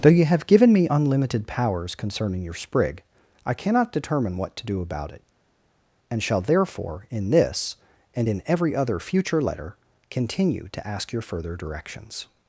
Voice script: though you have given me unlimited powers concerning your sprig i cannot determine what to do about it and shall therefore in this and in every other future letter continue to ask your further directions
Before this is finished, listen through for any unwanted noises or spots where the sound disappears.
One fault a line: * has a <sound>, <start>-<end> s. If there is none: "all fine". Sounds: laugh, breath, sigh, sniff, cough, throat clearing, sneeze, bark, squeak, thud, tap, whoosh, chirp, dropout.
all fine